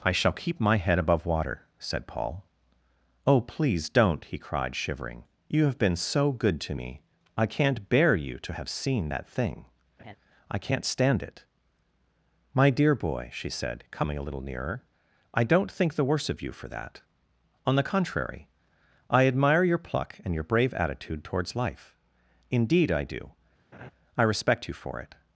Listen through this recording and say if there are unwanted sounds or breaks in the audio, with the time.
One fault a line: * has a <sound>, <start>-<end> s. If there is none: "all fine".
* has a laugh, 10.0-10.2 s
* has a laugh, 23.7-23.9 s